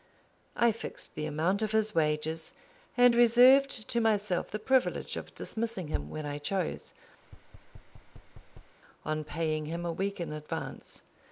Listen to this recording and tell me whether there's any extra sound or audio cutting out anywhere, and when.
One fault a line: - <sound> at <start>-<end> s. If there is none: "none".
- thud at 7.2-8.8 s